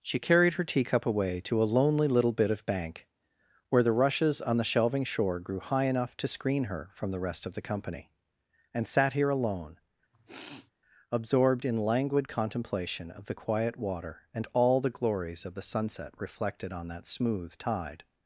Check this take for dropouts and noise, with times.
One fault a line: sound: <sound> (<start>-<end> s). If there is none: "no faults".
sound: sniff (10.1-10.7 s)